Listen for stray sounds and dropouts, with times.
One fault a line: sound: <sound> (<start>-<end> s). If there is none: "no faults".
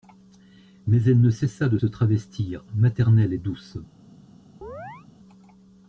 sound: chirp (4.6-5.1 s)